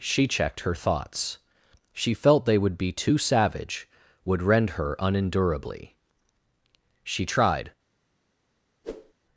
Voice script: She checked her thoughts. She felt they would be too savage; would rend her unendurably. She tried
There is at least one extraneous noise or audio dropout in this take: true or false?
true